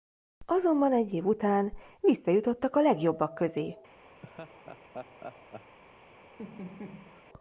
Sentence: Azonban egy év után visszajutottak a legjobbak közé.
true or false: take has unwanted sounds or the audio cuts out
true